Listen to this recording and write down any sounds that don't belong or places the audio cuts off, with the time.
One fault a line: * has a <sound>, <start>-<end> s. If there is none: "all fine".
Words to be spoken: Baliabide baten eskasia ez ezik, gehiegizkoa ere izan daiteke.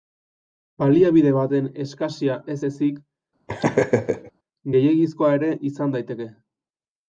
* has a laugh, 3.5-4.3 s